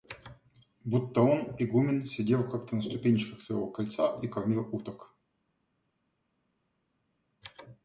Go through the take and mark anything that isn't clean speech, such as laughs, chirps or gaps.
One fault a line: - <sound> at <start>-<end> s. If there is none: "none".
none